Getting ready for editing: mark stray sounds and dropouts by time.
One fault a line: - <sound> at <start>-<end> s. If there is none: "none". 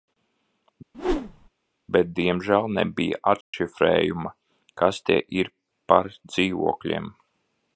- whoosh at 0.9-1.5 s
- dropout at 3.4-3.5 s